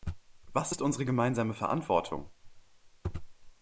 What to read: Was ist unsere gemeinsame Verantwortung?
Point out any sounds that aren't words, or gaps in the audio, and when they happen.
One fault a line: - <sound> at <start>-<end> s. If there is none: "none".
none